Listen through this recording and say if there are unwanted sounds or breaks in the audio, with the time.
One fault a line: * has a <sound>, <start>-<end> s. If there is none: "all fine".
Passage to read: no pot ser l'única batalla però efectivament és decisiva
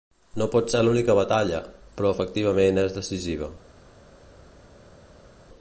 all fine